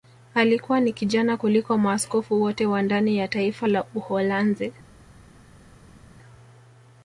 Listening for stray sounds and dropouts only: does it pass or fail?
pass